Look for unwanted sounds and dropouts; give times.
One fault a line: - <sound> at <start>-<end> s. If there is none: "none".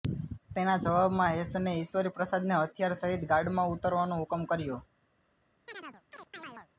- chirp at 5.7-6.7 s